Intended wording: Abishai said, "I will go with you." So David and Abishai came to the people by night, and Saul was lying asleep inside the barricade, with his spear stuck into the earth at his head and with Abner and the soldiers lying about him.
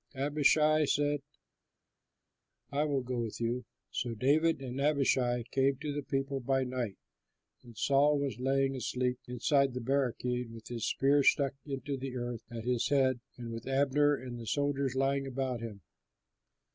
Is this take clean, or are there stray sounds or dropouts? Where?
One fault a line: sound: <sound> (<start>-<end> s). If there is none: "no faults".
no faults